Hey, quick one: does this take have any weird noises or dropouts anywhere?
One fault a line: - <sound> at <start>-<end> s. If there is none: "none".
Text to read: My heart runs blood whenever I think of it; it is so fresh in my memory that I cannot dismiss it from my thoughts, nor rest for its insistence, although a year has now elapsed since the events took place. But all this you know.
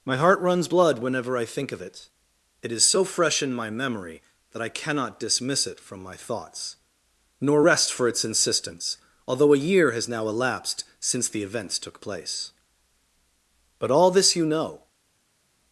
none